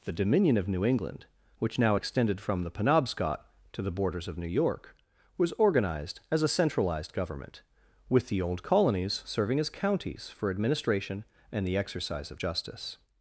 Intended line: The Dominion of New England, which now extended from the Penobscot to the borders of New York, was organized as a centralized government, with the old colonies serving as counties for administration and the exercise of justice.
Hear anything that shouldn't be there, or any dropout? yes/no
no